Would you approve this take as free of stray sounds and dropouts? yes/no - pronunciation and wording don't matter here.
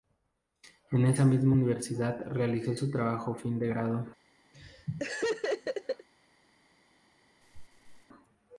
no